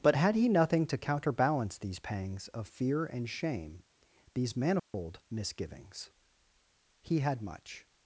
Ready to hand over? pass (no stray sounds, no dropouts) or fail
fail